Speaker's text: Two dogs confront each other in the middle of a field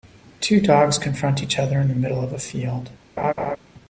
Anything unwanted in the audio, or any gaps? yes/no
yes